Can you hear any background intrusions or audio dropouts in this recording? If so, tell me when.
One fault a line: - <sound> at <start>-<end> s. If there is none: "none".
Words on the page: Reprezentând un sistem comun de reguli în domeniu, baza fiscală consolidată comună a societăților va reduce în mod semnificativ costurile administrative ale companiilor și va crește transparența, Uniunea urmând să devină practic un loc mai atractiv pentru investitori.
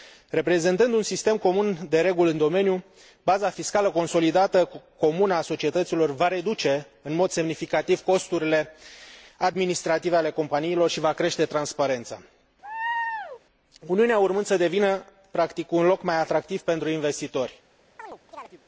- laugh at 12.6-13.4 s
- chirp at 18.0-18.6 s